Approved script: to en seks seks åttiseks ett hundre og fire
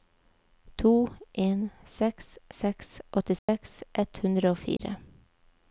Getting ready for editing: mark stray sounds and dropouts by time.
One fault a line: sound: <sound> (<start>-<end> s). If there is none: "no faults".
sound: dropout (3.4-3.5 s)
sound: dropout (4.8-4.8 s)